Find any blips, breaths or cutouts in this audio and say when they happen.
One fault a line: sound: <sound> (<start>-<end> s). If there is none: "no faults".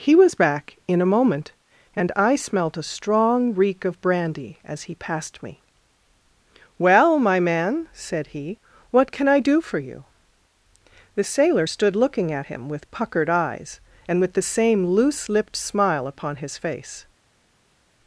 no faults